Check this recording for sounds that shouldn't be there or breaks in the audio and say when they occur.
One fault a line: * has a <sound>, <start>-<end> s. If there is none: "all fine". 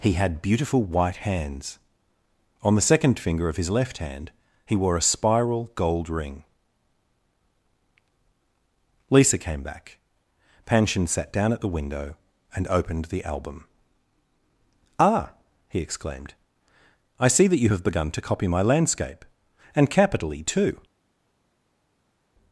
all fine